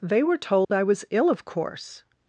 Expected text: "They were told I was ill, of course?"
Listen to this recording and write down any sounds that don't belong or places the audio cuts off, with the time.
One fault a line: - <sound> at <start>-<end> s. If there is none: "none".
- dropout at 0.6-0.7 s